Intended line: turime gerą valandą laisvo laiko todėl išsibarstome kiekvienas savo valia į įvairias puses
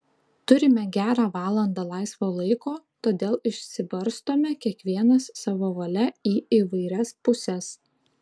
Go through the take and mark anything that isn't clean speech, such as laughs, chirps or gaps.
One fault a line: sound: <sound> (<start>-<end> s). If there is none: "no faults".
no faults